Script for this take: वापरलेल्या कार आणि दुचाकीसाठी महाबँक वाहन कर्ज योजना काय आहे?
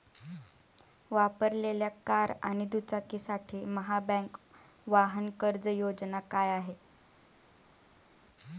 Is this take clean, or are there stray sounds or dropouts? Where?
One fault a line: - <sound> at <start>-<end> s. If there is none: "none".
none